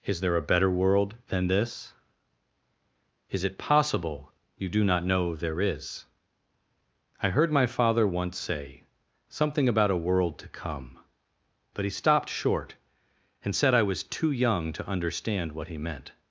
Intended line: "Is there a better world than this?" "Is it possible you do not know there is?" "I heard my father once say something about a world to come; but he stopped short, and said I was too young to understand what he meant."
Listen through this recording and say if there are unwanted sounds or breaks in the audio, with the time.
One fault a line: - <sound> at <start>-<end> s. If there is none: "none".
none